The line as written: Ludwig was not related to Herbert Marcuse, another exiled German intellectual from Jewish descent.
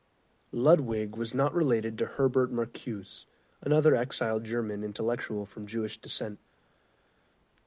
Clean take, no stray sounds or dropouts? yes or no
yes